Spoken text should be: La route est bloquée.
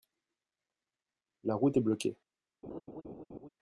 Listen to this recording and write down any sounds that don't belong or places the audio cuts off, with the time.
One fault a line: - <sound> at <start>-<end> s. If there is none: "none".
- laugh at 2.6-3.5 s